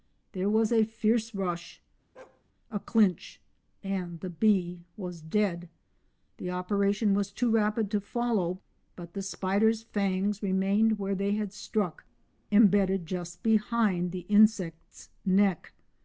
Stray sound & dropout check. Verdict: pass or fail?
fail